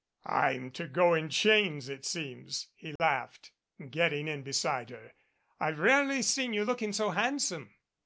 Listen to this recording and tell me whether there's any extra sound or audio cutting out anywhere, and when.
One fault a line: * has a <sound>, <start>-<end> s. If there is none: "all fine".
* has a dropout, 3.0-3.0 s